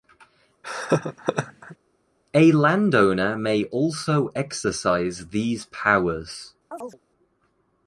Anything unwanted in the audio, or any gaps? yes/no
yes